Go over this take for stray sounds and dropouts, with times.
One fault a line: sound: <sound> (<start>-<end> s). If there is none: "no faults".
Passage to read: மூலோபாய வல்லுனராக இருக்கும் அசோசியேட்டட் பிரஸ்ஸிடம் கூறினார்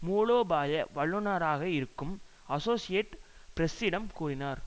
no faults